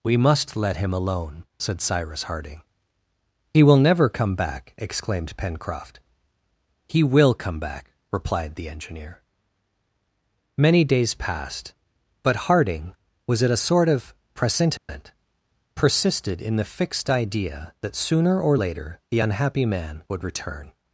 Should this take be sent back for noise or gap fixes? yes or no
yes